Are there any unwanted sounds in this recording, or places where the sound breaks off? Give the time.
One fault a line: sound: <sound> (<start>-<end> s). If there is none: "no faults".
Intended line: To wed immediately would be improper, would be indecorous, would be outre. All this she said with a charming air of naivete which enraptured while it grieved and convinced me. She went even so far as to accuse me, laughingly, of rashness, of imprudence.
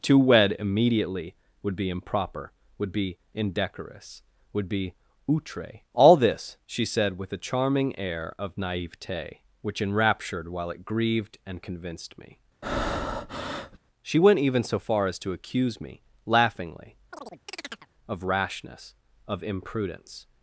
sound: breath (12.6-13.8 s)
sound: chirp (17.1-17.9 s)